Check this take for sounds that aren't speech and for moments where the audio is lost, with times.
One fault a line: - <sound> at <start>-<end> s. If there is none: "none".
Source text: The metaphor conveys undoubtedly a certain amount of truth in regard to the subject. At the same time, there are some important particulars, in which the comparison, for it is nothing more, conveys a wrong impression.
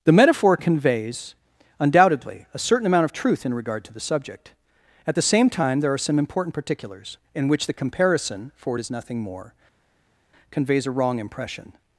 none